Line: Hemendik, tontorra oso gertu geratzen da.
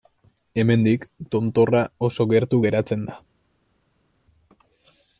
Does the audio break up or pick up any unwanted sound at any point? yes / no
no